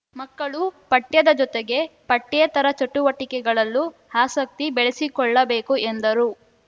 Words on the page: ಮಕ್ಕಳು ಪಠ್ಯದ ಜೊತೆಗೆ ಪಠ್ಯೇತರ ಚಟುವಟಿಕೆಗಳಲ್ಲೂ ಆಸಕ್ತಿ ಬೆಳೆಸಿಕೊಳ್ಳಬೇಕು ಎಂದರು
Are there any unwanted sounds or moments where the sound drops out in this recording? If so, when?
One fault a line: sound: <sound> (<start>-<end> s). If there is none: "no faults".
no faults